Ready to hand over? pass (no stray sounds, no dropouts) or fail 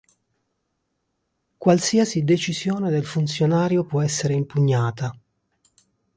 pass